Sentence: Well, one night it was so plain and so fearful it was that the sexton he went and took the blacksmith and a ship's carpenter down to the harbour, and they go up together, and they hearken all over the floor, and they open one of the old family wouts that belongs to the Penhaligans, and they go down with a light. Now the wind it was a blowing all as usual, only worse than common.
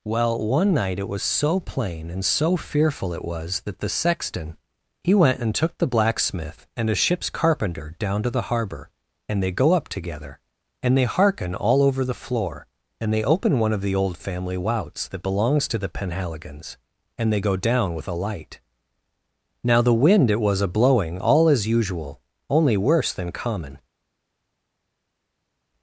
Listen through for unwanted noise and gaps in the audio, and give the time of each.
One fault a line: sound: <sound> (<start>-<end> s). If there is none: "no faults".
no faults